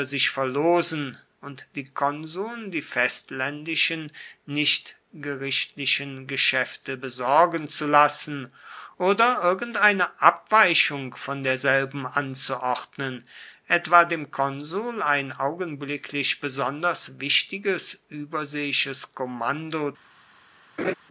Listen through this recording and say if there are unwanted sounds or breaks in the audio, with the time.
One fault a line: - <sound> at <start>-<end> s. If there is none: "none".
- laugh at 20.8-20.9 s